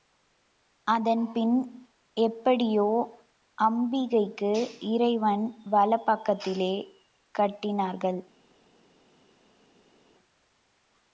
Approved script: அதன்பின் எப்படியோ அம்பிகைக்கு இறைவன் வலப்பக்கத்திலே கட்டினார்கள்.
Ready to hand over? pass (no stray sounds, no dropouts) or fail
pass